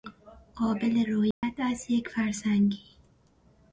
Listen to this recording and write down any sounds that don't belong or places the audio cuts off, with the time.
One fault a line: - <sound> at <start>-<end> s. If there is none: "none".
- dropout at 1.3-1.4 s